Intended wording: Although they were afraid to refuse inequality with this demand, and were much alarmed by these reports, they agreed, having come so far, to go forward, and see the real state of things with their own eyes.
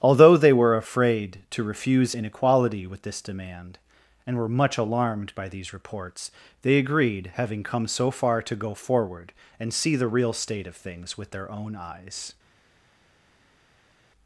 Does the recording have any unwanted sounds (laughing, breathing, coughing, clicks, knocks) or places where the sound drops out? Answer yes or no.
no